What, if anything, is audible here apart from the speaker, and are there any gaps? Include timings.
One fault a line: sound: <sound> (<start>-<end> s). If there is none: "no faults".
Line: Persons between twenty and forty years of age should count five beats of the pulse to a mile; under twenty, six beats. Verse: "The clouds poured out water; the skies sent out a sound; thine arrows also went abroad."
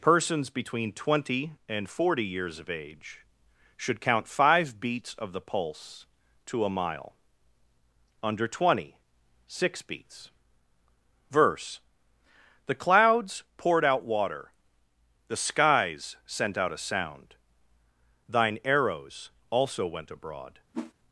sound: whoosh (20.7-20.9 s)